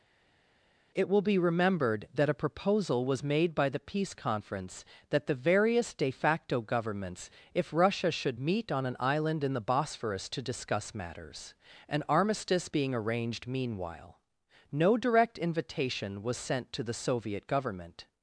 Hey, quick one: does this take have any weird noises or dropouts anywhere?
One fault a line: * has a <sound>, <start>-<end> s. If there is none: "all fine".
all fine